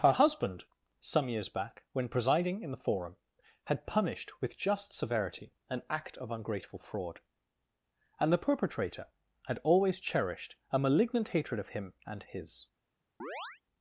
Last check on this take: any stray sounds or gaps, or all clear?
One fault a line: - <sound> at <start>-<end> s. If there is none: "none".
- chirp at 13.2-13.6 s